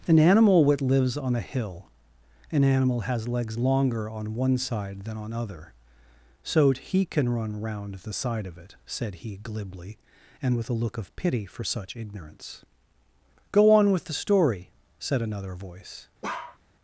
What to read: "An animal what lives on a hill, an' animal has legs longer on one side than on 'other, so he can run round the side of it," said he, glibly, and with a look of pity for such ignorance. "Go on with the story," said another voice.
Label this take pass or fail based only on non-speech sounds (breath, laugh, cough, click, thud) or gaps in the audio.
fail